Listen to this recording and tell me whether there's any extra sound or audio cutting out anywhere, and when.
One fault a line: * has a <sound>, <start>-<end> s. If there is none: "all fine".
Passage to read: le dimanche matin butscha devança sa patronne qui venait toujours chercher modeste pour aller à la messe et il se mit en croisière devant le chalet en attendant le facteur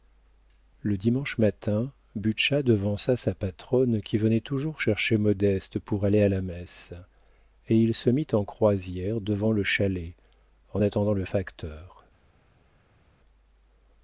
all fine